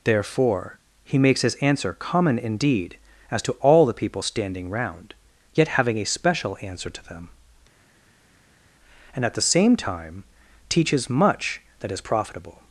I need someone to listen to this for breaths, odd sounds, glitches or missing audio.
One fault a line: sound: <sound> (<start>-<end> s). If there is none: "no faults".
no faults